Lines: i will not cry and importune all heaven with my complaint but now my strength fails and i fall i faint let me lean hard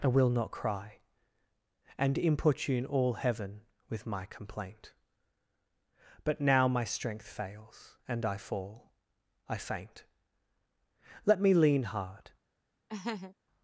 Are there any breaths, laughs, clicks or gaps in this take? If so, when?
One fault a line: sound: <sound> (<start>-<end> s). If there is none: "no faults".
sound: laugh (12.9-13.4 s)